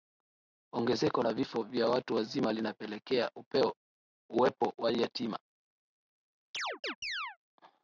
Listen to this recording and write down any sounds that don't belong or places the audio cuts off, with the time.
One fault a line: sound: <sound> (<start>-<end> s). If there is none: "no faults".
sound: chirp (6.5-7.4 s)